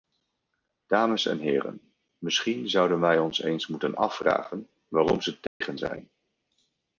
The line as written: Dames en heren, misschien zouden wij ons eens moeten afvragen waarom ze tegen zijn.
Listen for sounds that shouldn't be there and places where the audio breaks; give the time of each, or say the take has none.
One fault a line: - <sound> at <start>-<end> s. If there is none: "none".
- dropout at 5.5-5.6 s